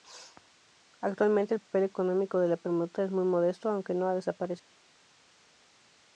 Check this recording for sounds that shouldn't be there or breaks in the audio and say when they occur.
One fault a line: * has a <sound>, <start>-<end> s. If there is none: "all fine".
all fine